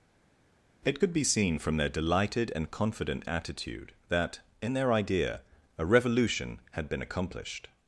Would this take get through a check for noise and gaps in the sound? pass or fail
pass